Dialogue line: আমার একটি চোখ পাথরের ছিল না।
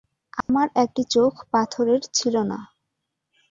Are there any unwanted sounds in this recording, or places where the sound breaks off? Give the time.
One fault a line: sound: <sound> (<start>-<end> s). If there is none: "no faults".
sound: dropout (0.4-0.5 s)